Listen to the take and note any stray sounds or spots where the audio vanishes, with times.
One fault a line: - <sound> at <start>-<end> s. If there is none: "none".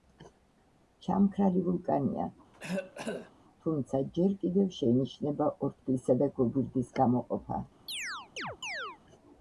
- cough at 2.5-3.3 s
- chirp at 7.9-9.0 s